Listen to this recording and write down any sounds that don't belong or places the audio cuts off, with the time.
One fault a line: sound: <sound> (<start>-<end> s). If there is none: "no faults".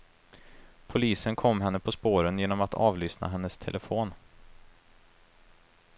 no faults